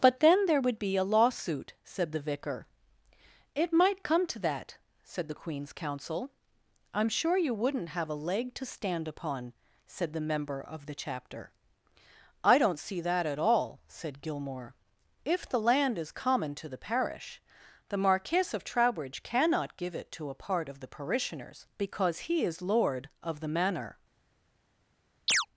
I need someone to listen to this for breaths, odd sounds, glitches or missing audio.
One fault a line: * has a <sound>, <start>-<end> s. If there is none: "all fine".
* has a chirp, 25.3-25.5 s